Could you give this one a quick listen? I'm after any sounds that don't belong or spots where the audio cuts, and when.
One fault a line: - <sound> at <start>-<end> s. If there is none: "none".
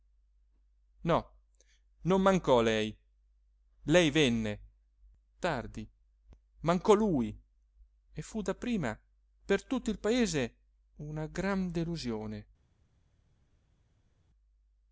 none